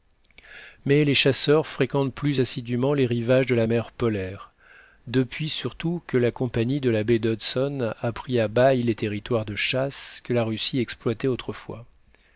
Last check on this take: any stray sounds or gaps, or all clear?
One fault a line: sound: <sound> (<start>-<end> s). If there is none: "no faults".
no faults